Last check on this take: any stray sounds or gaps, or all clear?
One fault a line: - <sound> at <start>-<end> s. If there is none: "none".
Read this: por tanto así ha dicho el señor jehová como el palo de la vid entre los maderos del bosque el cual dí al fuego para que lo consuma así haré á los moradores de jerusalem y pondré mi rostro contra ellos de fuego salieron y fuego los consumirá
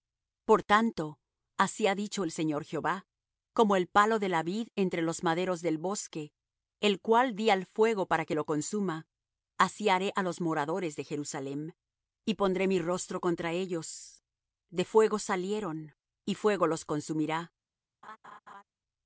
- laugh at 18.0-18.6 s